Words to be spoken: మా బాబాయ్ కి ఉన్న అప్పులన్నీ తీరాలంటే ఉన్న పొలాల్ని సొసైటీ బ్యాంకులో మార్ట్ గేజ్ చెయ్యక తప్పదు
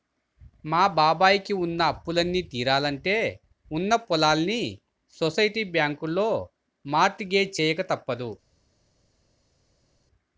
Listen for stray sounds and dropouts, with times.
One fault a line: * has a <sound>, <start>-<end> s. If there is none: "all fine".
all fine